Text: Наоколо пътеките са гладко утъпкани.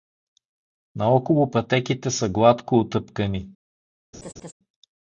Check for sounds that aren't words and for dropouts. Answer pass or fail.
fail